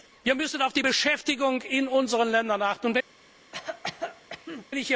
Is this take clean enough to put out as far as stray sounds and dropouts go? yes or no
no